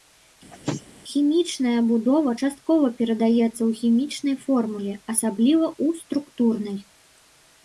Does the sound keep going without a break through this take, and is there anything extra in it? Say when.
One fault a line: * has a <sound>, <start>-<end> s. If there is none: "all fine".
* has a sneeze, 0.5-0.8 s